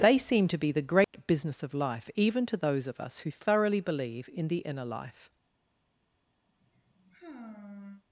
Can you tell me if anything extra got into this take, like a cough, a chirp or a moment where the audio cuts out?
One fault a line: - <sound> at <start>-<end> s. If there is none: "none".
- dropout at 1.0-1.1 s
- sigh at 6.5-8.0 s